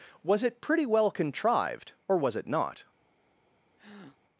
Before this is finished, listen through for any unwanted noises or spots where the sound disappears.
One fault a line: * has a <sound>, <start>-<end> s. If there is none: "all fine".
* has a breath, 3.8-4.2 s